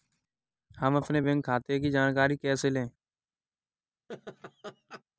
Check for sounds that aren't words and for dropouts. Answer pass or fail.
fail